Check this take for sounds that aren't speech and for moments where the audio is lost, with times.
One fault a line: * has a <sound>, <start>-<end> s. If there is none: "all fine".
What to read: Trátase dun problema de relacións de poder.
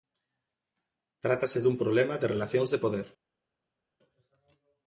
all fine